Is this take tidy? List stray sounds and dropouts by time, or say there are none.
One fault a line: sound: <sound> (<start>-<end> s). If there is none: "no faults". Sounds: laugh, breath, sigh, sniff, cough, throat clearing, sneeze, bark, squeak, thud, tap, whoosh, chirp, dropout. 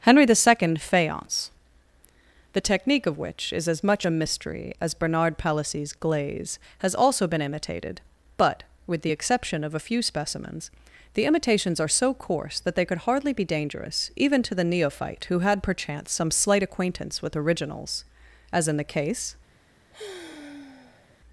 sound: sigh (19.9-21.2 s)